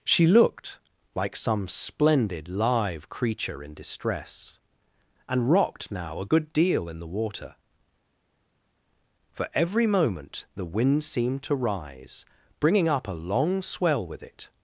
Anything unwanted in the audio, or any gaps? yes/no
no